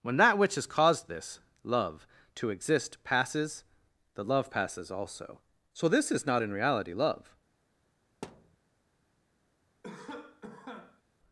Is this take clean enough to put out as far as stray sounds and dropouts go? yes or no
no